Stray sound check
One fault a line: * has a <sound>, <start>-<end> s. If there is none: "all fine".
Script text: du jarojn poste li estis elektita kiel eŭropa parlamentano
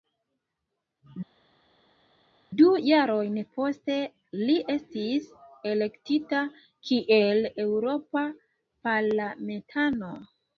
all fine